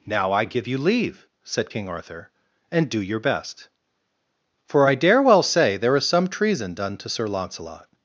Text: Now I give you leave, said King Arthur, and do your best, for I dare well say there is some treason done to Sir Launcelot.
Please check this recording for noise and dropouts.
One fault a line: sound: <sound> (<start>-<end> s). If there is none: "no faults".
no faults